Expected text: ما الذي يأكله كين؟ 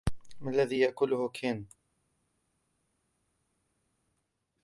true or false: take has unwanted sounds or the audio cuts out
false